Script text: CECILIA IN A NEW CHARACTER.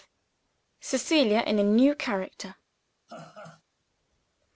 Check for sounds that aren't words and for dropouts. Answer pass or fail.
fail